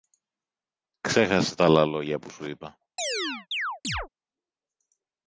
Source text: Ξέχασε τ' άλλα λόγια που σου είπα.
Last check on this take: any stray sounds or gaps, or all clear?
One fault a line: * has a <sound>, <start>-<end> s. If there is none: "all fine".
* has a chirp, 3.0-4.1 s